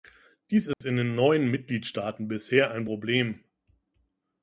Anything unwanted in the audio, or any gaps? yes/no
yes